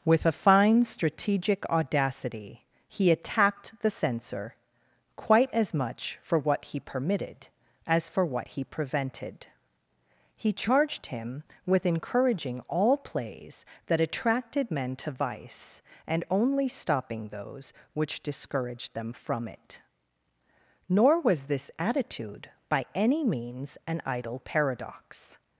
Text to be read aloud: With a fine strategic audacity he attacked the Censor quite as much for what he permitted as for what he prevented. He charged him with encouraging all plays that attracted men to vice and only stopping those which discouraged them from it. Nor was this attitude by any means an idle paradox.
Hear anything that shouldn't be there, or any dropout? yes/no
no